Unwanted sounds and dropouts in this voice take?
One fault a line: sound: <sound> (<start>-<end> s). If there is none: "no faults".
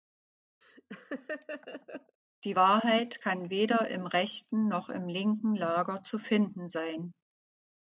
sound: laugh (0.6-2.2 s)